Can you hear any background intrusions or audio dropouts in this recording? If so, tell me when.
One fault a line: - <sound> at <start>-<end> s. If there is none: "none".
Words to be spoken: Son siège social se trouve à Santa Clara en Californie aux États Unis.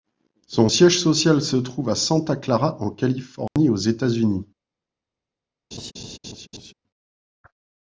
- dropout at 3.5-3.6 s
- laugh at 5.7-6.7 s